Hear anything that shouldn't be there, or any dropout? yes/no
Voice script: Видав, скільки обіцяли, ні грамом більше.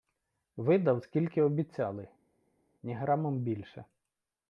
no